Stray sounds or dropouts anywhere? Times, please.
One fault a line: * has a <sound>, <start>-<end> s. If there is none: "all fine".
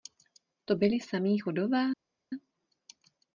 all fine